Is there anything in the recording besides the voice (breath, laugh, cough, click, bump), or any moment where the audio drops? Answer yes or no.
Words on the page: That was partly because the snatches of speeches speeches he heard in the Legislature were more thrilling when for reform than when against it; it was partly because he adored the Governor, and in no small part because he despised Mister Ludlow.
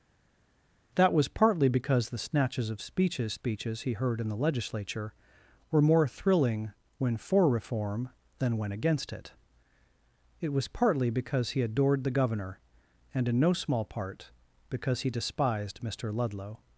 no